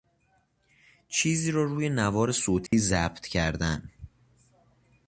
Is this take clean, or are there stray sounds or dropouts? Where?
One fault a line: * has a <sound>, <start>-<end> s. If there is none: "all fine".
* has a dropout, 2.7-2.7 s